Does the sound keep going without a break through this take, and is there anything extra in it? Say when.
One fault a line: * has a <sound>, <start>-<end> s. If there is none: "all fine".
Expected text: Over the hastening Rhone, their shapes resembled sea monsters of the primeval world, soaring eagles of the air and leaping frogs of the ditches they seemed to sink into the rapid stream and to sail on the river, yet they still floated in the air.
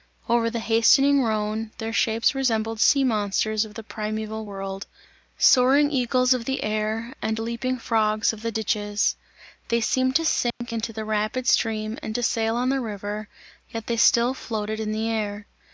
* has a dropout, 10.5-10.6 s